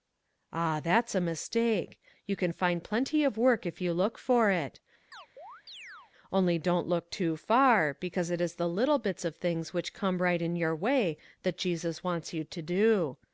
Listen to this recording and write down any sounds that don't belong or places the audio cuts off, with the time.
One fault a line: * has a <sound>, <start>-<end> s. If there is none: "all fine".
* has a chirp, 5.1-6.1 s